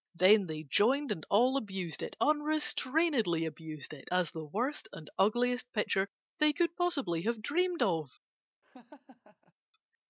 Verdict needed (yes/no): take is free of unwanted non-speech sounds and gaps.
no